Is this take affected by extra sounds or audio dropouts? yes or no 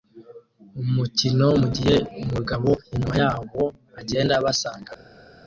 no